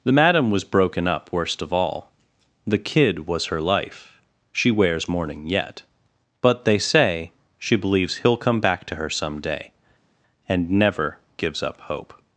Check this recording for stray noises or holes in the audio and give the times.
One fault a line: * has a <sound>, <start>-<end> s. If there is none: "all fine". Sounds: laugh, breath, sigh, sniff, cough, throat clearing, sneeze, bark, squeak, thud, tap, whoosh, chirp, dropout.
all fine